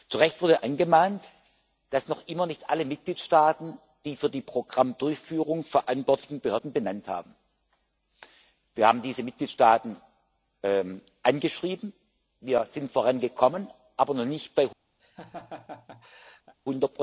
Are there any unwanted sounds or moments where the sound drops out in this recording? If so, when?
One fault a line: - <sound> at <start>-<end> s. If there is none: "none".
- laugh at 15.0-16.5 s